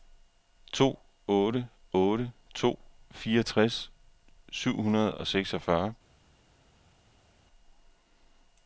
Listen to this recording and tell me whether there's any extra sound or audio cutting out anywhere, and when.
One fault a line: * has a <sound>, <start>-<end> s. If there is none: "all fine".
all fine